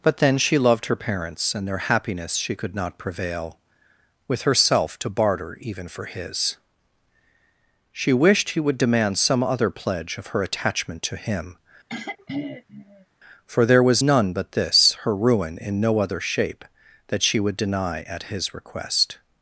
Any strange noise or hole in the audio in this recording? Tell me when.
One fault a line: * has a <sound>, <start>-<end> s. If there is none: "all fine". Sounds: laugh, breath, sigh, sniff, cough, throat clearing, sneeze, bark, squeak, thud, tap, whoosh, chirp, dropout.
* has a throat clearing, 11.9-13.1 s